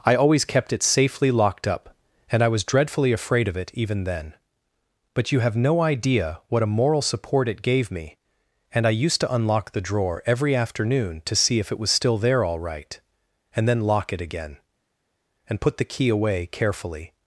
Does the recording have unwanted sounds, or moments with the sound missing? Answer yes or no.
no